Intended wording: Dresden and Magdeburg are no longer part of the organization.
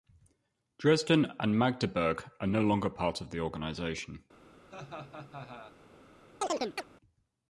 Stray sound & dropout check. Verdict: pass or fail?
fail